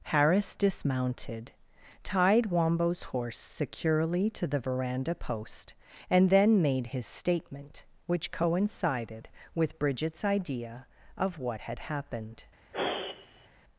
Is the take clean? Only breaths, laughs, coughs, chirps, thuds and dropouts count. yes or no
no